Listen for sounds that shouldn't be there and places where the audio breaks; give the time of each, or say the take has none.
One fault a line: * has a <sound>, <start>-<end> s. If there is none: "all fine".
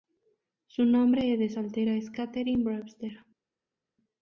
all fine